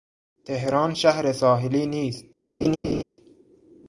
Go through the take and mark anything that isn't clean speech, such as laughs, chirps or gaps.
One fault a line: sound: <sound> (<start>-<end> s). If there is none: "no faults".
sound: laugh (2.6-3.0 s)